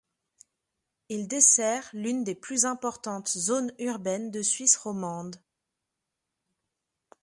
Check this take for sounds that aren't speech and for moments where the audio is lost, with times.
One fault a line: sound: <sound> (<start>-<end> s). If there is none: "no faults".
no faults